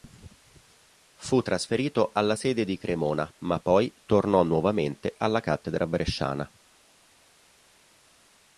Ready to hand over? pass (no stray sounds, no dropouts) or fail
pass